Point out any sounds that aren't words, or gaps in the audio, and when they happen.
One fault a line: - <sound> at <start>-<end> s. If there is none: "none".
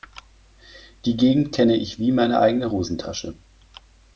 none